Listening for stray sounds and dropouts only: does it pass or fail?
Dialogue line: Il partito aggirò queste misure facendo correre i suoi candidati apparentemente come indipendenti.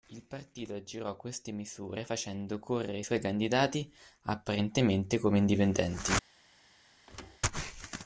fail